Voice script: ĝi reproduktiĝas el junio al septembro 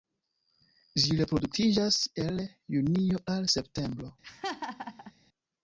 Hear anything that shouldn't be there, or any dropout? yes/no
yes